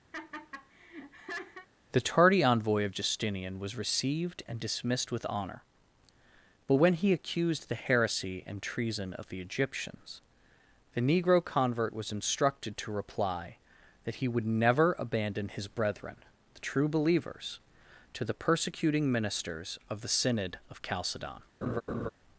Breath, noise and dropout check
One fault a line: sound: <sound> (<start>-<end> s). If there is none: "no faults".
sound: laugh (0.1-1.7 s)
sound: laugh (21.6-22.1 s)